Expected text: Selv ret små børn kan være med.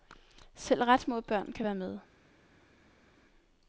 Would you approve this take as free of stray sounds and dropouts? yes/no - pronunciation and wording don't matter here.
yes